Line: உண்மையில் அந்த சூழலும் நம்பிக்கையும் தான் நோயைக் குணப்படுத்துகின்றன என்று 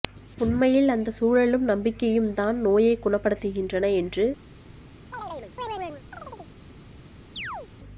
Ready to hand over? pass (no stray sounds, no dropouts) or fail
fail